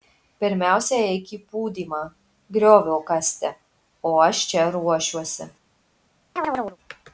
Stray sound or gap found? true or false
true